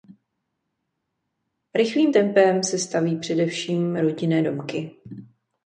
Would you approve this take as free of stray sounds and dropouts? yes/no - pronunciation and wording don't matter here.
yes